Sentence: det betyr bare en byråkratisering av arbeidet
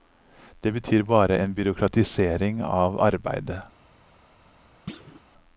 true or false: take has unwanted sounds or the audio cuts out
true